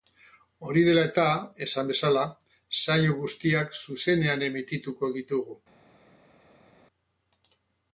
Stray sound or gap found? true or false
false